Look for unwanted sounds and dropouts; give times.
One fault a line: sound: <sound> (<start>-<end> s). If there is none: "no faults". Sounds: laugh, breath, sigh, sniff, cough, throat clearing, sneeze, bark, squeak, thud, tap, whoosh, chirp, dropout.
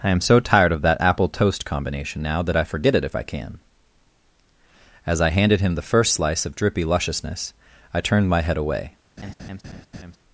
sound: laugh (9.2-10.2 s)